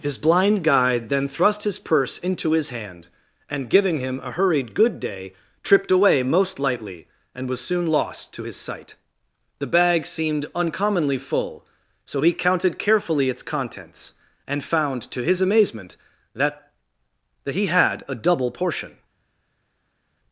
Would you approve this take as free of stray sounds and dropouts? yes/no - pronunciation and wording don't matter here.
yes